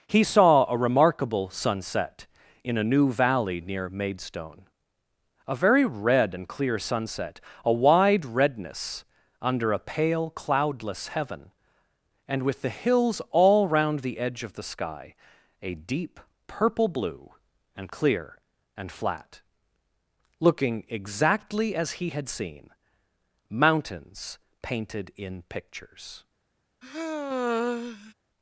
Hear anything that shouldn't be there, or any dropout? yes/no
yes